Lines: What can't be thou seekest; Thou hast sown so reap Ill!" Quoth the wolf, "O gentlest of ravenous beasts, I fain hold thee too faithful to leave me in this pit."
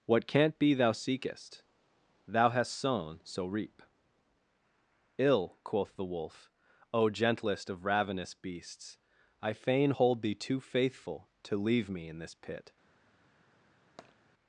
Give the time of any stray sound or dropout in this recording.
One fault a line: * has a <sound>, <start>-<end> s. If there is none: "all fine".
* has a tap, 14.0-14.2 s